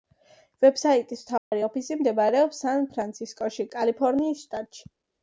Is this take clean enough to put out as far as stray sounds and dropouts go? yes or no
no